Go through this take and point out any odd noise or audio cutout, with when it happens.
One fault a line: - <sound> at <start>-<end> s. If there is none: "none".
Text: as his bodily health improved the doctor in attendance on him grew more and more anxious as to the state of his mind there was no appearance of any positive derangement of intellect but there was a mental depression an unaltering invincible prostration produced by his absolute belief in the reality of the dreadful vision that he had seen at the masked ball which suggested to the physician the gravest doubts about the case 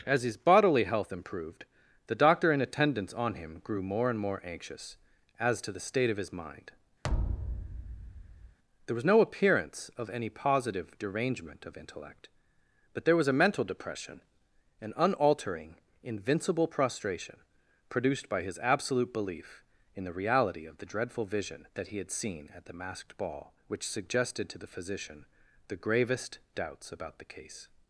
- thud at 7.0-8.6 s